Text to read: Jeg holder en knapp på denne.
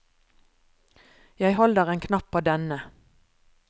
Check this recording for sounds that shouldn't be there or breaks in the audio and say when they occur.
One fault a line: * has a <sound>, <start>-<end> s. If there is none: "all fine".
all fine